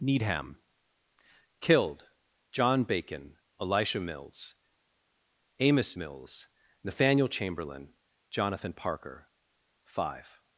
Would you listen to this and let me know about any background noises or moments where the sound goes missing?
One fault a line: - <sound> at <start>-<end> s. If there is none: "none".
none